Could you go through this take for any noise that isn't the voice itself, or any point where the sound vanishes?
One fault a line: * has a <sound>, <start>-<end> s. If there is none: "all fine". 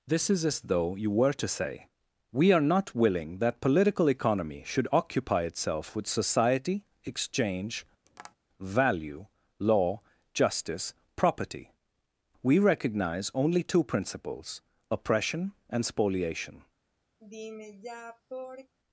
* has a tap, 8.1-8.4 s
* has a sigh, 17.2-18.7 s